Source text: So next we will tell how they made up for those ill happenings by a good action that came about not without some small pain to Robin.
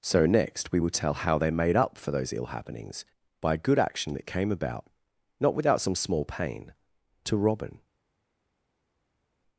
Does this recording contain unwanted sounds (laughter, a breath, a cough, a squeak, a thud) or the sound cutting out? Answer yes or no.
no